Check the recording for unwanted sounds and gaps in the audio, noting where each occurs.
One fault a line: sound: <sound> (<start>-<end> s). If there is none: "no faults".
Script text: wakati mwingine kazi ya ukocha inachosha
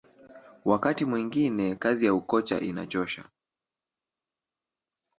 no faults